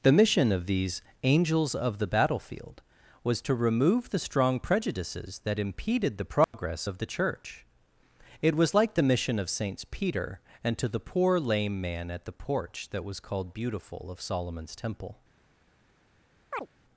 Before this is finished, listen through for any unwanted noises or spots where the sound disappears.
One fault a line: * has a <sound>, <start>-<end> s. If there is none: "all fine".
* has a dropout, 6.4-6.5 s
* has a chirp, 16.5-16.7 s